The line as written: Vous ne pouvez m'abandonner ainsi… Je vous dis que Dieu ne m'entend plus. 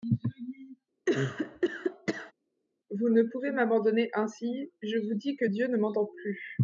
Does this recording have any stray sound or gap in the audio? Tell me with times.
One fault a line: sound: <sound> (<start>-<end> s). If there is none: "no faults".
sound: cough (1.1-2.3 s)